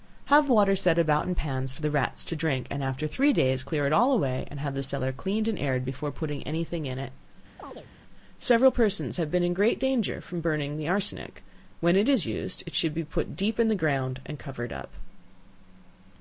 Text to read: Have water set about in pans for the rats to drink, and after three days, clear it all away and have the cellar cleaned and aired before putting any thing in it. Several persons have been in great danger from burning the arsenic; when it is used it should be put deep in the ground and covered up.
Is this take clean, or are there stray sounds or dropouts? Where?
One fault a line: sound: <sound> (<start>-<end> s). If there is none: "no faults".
sound: chirp (7.6-7.9 s)